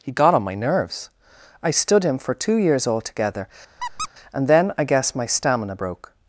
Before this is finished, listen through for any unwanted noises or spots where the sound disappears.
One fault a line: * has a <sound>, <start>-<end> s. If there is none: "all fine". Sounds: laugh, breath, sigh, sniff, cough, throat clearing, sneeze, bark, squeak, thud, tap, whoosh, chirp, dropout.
* has a squeak, 3.8-4.1 s